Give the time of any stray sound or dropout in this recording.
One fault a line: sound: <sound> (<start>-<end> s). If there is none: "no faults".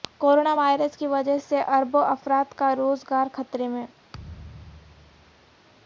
sound: thud (4.1-5.6 s)